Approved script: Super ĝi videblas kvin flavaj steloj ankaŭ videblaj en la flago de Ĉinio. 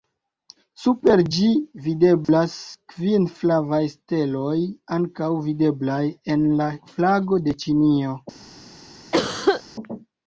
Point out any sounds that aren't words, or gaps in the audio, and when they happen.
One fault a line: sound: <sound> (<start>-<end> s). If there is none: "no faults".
sound: dropout (2.2-2.3 s)
sound: cough (9.1-9.6 s)